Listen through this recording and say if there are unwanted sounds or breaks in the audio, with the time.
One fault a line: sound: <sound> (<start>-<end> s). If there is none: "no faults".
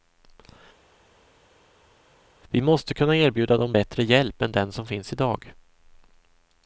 no faults